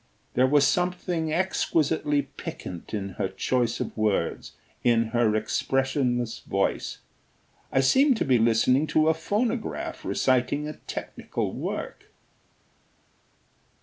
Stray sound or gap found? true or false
false